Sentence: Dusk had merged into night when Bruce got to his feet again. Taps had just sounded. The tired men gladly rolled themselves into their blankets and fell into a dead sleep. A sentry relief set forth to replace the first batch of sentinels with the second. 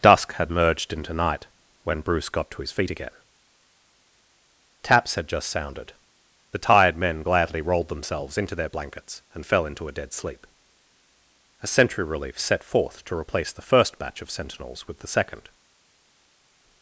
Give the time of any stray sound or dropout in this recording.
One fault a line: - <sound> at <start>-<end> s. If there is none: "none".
none